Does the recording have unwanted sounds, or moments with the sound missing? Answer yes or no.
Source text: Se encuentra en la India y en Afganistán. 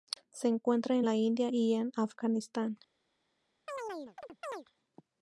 yes